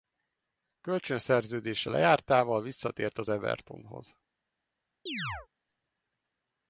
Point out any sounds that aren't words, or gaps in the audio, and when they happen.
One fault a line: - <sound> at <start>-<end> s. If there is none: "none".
- chirp at 5.1-5.5 s